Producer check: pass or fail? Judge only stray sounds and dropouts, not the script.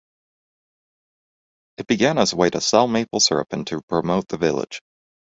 pass